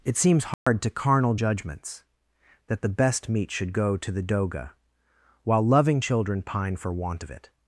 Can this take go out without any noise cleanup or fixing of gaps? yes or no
no